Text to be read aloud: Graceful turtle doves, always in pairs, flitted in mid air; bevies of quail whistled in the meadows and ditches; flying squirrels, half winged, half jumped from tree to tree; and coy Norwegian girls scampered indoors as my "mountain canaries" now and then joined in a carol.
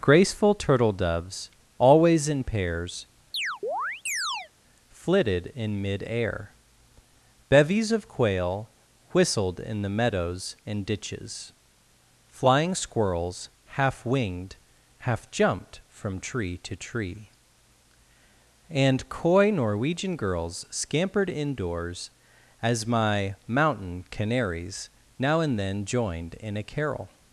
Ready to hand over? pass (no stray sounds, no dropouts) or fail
fail